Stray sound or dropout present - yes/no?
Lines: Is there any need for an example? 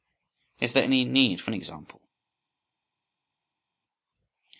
no